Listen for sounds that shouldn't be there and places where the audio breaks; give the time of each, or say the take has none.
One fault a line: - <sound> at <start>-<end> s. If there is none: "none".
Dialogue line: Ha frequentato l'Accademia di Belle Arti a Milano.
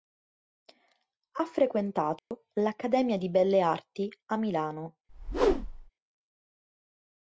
- dropout at 2.2-2.3 s
- whoosh at 5.1-5.9 s